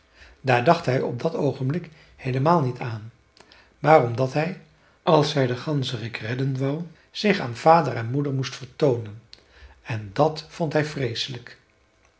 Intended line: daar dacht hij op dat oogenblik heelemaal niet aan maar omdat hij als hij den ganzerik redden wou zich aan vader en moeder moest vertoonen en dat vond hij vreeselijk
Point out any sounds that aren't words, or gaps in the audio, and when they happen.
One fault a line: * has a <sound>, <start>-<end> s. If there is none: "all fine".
all fine